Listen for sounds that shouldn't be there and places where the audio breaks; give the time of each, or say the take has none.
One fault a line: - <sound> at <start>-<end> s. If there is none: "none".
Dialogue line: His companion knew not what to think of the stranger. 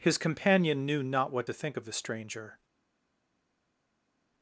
none